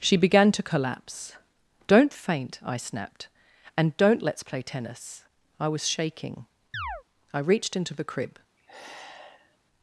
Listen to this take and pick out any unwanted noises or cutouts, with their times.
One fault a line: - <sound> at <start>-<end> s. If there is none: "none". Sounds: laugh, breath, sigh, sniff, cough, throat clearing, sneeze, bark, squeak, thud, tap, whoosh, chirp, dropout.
- chirp at 6.7-7.0 s
- sigh at 8.6-9.6 s